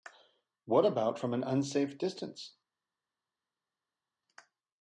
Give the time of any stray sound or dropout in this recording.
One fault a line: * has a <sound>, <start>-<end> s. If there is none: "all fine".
all fine